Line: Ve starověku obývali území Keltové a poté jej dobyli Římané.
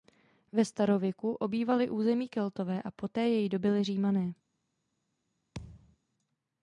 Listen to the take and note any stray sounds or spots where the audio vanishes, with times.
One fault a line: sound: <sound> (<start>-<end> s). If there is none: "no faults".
sound: thud (5.5-6.0 s)